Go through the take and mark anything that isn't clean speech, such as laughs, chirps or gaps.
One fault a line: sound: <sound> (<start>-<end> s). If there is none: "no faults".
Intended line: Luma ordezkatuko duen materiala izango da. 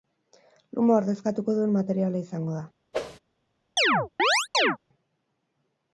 sound: whoosh (2.9-3.2 s)
sound: chirp (3.8-4.8 s)